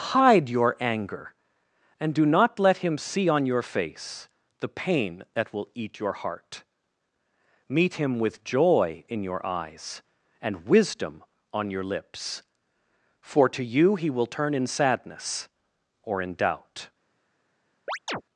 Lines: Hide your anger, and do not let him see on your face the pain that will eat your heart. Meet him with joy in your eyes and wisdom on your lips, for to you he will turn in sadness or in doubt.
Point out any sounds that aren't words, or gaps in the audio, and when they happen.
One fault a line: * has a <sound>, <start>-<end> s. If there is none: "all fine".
* has a chirp, 17.9-18.2 s